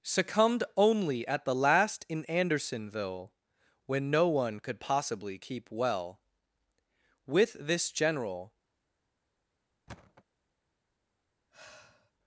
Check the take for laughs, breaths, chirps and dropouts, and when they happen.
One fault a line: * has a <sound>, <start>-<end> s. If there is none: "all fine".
* has a thud, 9.9-10.2 s
* has a sigh, 11.5-12.1 s